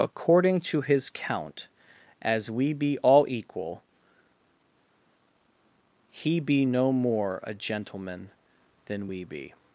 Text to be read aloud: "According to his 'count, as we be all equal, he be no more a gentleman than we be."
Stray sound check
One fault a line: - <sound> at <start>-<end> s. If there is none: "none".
none